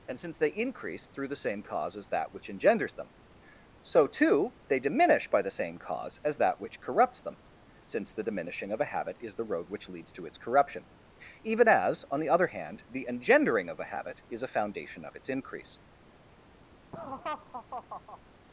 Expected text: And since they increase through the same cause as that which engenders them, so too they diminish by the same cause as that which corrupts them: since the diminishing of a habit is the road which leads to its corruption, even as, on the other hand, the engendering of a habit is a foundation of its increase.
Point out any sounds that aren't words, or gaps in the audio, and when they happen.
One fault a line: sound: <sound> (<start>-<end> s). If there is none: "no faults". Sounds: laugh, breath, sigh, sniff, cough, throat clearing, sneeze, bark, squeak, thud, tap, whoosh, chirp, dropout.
sound: laugh (16.9-18.2 s)